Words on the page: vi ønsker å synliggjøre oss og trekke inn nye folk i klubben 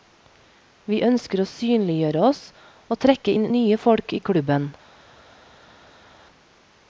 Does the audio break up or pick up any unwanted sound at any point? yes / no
no